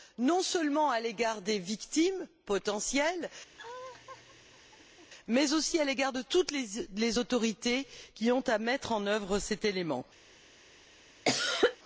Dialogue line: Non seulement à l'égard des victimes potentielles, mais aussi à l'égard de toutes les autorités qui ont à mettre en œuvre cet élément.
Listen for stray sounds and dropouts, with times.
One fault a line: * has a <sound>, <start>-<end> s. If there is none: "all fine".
* has a laugh, 3.5-5.1 s
* has a cough, 11.2-11.8 s